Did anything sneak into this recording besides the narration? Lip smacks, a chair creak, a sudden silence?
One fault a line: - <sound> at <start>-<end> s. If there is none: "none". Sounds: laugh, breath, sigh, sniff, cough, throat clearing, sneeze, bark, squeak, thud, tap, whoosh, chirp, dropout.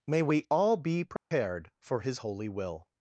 - dropout at 1.2-1.3 s